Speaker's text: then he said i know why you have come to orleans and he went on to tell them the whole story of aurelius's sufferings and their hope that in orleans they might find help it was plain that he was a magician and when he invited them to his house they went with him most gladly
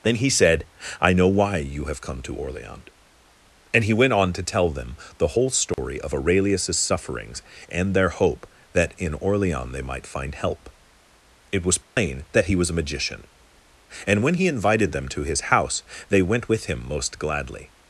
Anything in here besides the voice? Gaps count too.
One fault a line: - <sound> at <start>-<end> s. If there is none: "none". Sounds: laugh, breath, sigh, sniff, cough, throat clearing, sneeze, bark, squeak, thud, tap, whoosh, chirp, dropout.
- dropout at 5.7-5.8 s
- dropout at 11.8-12.0 s